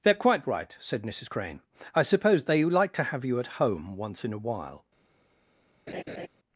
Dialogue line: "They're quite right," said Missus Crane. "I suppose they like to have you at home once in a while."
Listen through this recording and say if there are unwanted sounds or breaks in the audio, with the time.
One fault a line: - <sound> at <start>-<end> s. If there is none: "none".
- laugh at 5.9-6.3 s